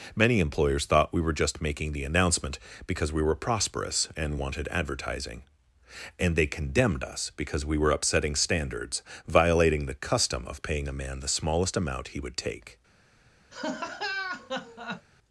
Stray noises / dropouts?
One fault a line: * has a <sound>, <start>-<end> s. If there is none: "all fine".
* has a laugh, 13.5-15.1 s